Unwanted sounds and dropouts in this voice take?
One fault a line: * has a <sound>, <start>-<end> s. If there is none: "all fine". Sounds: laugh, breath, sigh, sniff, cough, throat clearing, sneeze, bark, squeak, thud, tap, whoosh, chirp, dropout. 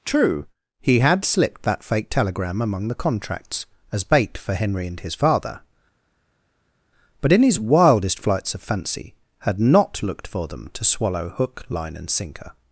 all fine